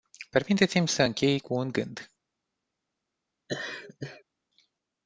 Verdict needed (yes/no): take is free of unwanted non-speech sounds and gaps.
no